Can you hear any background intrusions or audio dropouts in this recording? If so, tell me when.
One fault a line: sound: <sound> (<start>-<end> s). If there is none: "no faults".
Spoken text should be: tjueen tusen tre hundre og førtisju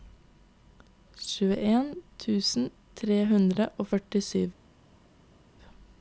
no faults